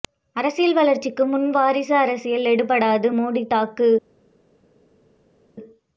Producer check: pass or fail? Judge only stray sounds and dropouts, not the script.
pass